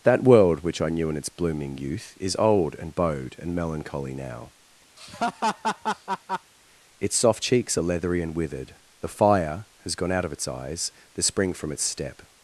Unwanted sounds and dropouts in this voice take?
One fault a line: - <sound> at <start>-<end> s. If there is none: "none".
- laugh at 5.0-6.5 s